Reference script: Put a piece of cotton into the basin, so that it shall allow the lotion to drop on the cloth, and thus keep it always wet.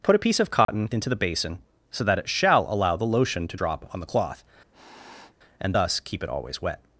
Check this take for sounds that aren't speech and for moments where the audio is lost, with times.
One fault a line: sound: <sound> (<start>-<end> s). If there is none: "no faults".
sound: dropout (0.6-0.7 s)
sound: sniff (4.7-5.4 s)